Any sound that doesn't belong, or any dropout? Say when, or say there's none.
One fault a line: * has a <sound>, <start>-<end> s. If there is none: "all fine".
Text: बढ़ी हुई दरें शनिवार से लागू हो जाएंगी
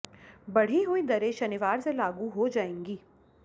all fine